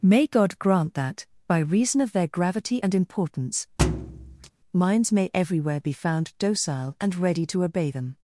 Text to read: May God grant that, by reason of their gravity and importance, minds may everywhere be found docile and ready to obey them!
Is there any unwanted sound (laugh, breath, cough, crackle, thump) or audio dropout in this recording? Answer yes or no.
yes